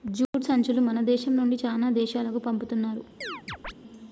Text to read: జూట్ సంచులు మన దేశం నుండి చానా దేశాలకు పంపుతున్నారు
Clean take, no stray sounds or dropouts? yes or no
no